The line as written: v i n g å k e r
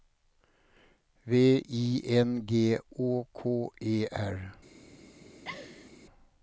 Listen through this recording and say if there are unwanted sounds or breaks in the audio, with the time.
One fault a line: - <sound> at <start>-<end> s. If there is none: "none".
- laugh at 5.4-5.9 s